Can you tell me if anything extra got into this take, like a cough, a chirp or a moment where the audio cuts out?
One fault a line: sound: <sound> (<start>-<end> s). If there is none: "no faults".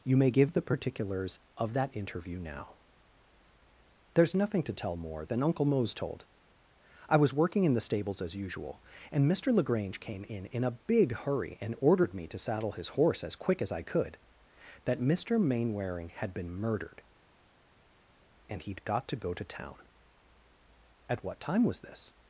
no faults